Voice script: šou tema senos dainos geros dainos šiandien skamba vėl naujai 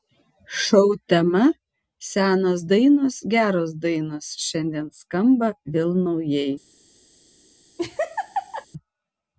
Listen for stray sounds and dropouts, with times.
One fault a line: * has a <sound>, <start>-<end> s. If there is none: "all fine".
* has a laugh, 7.8-8.7 s